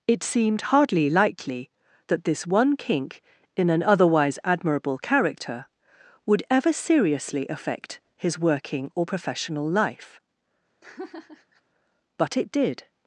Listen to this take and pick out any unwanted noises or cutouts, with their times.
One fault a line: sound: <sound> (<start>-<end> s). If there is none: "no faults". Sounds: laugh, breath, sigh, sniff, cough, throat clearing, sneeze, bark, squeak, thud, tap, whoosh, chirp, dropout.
sound: laugh (10.8-11.6 s)